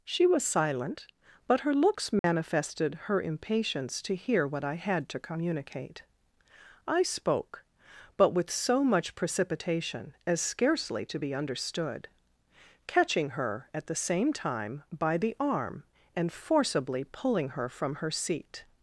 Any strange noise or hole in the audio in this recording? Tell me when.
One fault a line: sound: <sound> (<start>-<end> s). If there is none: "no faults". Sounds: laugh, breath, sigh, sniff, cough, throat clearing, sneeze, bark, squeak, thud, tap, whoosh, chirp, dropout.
sound: dropout (2.2-2.2 s)